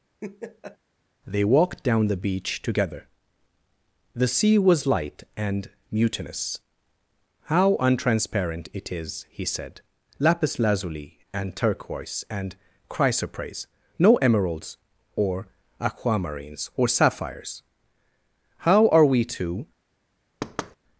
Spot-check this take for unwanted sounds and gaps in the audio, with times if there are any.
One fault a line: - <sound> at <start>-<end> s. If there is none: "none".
- laugh at 0.2-0.8 s
- thud at 20.4-20.8 s